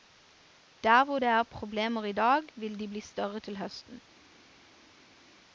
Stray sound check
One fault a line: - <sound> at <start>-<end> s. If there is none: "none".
none